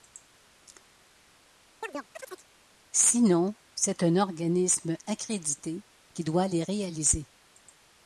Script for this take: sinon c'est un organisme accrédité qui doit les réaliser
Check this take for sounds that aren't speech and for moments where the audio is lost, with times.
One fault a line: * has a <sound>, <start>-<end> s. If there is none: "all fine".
* has a chirp, 1.8-2.5 s